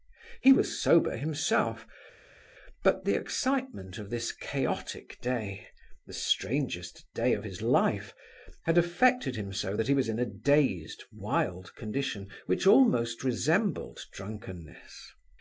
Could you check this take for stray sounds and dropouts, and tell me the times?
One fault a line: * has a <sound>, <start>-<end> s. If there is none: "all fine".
all fine